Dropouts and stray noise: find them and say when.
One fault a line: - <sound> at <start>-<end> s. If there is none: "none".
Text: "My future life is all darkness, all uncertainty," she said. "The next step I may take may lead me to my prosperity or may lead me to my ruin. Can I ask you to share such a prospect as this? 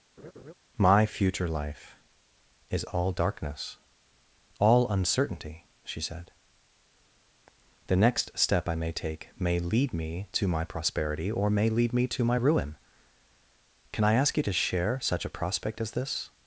- laugh at 0.2-0.5 s